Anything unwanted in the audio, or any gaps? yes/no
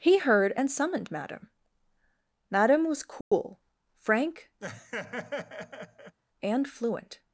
yes